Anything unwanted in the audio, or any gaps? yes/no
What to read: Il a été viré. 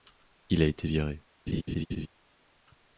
yes